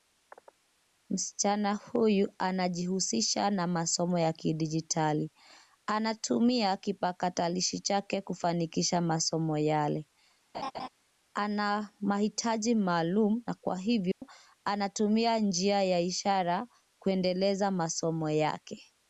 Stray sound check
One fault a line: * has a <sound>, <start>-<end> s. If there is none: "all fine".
* has a laugh, 10.5-10.9 s
* has a dropout, 14.1-14.2 s